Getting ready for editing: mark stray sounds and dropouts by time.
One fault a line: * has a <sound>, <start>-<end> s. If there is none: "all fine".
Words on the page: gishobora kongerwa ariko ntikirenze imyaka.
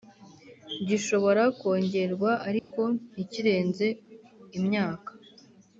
* has a dropout, 2.6-2.7 s